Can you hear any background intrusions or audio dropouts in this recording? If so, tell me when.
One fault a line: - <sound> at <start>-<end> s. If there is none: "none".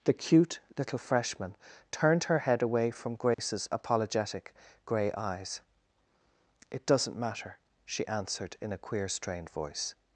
- dropout at 3.3-3.4 s